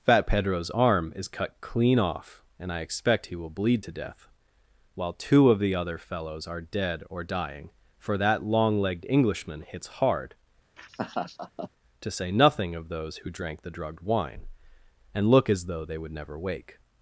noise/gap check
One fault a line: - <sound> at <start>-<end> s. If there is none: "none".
- laugh at 10.8-11.7 s